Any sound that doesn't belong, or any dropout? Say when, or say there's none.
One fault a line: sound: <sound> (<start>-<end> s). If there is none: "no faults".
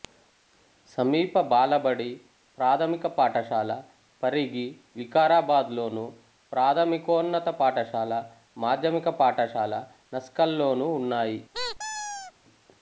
sound: squeak (11.5-12.3 s)